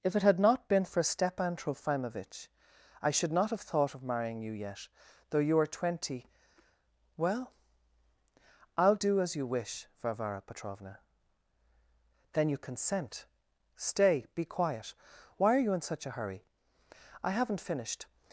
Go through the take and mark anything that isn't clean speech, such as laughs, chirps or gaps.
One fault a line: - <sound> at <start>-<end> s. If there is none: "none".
none